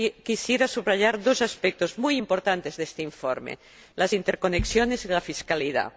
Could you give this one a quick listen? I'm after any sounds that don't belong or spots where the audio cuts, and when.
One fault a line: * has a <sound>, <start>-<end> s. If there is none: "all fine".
all fine